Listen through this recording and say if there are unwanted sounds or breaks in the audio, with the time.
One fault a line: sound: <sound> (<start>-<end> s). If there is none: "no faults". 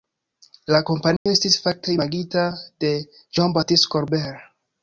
sound: dropout (1.2-1.3 s)